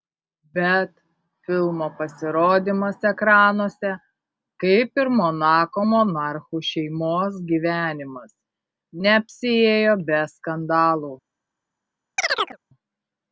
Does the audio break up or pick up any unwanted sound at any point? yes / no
yes